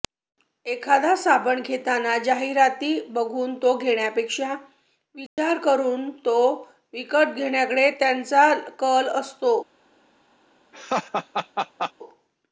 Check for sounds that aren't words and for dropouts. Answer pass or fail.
fail